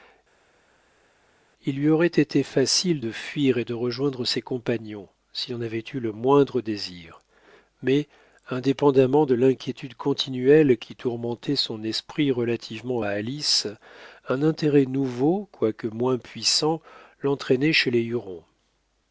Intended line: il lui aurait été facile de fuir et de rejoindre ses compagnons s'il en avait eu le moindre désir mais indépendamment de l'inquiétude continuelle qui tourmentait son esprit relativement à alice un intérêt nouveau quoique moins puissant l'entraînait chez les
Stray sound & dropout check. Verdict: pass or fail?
pass